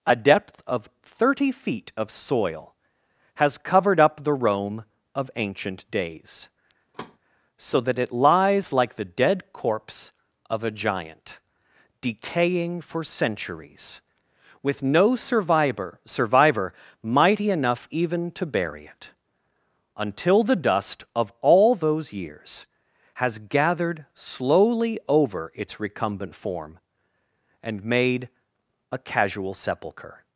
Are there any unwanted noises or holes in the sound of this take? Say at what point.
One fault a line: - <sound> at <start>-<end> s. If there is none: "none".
- thud at 6.9-7.2 s